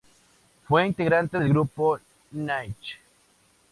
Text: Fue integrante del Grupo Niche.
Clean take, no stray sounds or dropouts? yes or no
yes